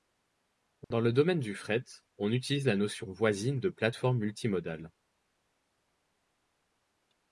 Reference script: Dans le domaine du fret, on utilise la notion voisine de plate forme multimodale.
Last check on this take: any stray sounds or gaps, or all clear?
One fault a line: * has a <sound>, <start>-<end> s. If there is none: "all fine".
* has a dropout, 0.8-0.9 s